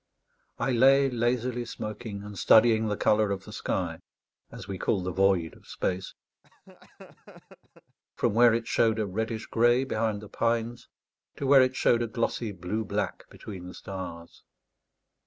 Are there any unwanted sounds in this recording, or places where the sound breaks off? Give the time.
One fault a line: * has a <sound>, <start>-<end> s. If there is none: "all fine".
* has a laugh, 6.4-8.0 s